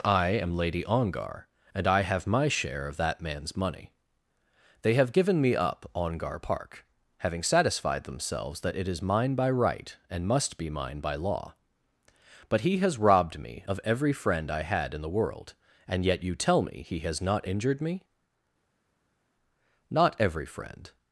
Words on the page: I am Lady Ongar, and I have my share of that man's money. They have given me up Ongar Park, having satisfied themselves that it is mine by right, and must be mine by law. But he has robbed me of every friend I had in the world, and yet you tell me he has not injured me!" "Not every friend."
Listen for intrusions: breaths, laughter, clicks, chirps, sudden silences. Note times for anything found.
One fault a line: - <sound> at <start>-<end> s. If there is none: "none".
none